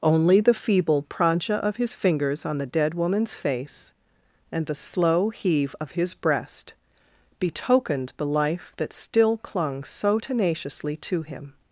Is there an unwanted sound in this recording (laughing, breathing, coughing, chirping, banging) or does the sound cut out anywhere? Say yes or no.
no